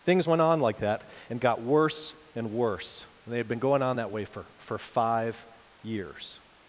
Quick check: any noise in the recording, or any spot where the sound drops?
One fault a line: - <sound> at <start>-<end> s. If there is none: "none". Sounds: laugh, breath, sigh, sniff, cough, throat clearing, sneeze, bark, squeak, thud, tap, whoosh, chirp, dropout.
none